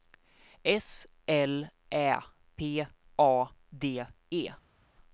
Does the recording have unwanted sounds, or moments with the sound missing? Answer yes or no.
no